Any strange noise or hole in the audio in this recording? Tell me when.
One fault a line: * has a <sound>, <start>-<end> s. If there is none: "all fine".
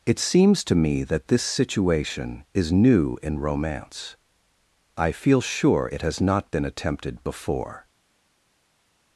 all fine